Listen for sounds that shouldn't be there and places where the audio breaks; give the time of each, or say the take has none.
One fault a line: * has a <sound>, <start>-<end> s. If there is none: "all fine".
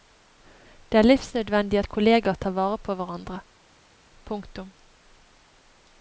all fine